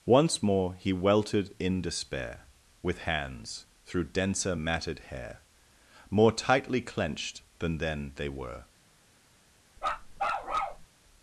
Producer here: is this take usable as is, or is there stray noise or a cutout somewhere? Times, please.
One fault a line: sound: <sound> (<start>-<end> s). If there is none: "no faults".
sound: bark (9.8-10.9 s)